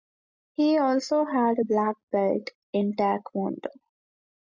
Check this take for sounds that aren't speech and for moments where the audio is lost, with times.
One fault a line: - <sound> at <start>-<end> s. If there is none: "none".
none